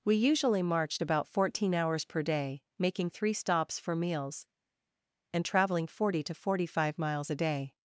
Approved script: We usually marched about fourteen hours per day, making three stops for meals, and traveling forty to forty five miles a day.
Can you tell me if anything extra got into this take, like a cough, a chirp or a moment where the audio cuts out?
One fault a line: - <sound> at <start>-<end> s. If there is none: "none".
none